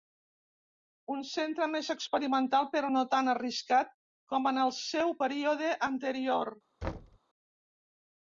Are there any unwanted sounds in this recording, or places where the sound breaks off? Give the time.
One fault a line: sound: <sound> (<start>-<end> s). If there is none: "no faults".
sound: thud (6.8-7.2 s)